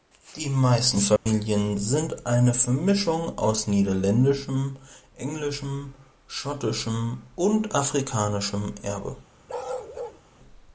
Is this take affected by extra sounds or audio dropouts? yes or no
yes